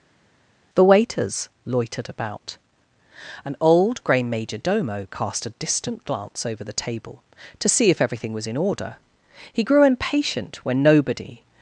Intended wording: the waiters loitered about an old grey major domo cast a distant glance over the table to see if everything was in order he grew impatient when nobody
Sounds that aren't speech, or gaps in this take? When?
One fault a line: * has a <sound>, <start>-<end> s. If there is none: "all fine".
all fine